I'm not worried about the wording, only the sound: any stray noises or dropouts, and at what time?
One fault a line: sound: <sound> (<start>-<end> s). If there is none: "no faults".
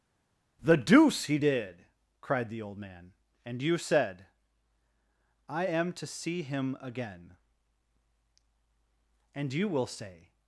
no faults